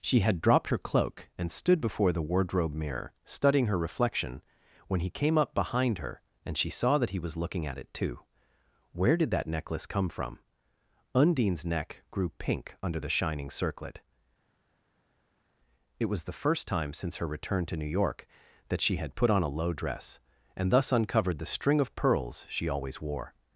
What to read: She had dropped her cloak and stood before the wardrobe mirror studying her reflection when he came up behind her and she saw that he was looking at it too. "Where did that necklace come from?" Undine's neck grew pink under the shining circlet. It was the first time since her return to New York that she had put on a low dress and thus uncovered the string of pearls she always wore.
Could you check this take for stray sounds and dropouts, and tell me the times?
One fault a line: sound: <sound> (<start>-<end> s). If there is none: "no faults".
no faults